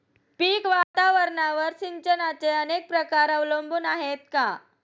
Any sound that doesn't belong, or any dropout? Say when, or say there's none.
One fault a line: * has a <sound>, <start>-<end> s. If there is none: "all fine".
* has a dropout, 0.8-0.9 s